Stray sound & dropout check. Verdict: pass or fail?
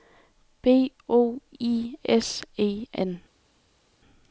pass